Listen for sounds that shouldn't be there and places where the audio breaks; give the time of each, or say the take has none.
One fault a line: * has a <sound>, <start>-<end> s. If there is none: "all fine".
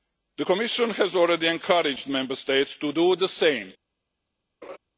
* has a laugh, 4.6-4.8 s